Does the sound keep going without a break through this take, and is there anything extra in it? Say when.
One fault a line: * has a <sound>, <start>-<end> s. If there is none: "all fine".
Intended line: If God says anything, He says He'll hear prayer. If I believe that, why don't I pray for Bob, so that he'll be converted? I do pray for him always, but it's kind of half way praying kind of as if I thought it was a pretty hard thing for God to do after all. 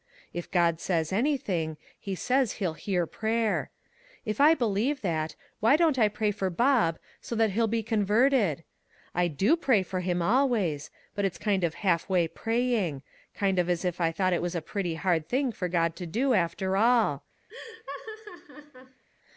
* has a laugh, 17.5-19.0 s